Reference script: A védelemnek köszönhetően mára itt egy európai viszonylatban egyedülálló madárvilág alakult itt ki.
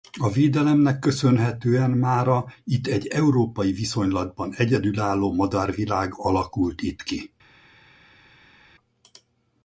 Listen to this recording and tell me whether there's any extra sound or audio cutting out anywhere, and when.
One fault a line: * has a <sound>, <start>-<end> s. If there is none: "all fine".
all fine